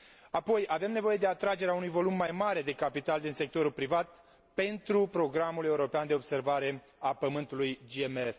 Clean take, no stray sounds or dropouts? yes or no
yes